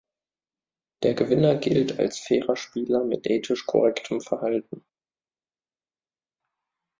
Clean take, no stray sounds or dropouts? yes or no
yes